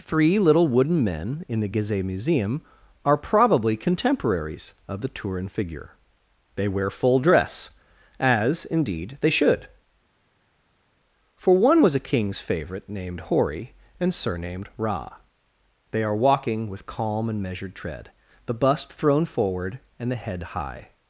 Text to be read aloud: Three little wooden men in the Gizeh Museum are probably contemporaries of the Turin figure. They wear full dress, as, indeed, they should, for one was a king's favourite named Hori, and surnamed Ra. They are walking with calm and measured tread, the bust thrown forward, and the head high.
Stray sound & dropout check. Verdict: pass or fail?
pass